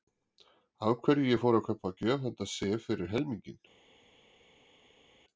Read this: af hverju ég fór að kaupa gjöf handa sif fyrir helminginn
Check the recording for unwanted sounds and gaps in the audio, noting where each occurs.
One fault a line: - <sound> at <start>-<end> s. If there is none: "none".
none